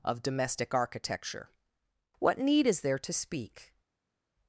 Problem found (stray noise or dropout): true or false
false